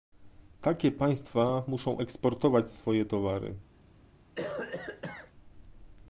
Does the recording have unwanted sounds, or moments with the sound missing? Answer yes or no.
yes